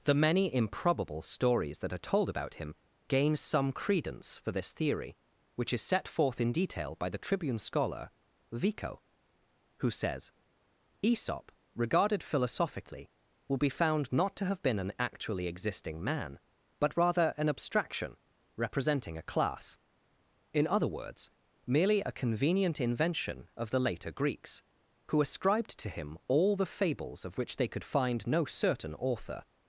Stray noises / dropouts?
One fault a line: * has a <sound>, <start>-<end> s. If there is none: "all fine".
all fine